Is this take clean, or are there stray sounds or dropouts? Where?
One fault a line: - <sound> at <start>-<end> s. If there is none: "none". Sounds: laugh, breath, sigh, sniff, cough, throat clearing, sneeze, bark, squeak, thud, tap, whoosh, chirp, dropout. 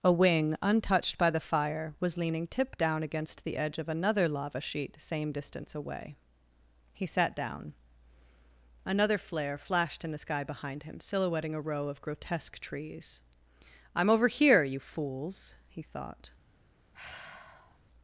- sigh at 16.9-17.8 s